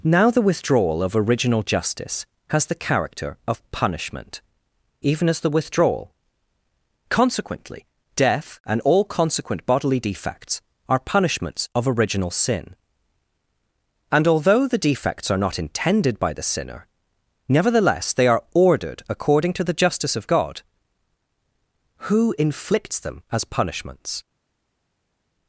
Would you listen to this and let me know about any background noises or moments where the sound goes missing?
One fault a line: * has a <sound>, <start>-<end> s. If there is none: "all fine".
all fine